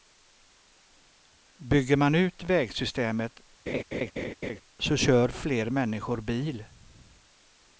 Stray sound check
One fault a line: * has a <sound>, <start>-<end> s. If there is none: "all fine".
* has a laugh, 3.7-4.6 s